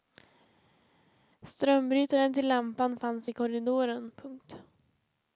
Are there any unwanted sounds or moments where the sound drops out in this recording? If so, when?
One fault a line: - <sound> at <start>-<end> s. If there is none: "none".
none